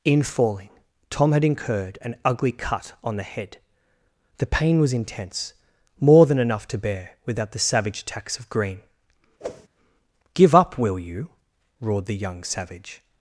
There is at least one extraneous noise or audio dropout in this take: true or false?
true